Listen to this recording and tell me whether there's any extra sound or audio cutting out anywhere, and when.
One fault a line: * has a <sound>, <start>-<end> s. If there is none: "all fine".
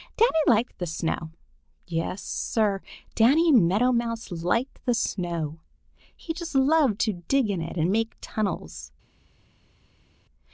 all fine